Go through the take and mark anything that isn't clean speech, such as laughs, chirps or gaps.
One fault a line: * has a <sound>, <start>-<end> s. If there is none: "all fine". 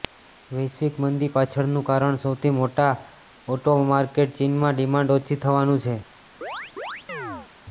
* has a chirp, 6.4-7.5 s